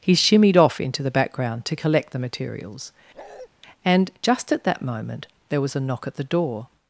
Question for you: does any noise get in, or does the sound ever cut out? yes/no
yes